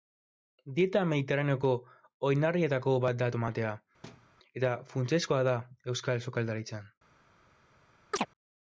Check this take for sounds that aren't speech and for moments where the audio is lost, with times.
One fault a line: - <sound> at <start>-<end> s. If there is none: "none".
- thud at 4.0-4.3 s
- chirp at 8.1-8.3 s